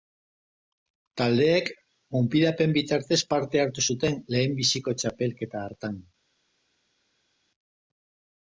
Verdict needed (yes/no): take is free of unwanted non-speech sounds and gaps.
yes